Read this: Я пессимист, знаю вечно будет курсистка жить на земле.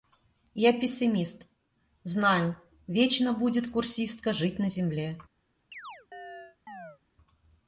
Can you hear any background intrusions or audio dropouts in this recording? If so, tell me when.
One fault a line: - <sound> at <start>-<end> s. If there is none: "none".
- chirp at 5.7-7.0 s